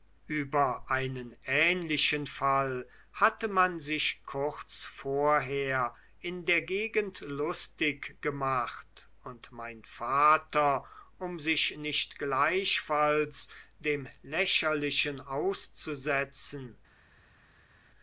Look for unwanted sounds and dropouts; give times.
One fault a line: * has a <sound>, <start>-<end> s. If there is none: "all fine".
all fine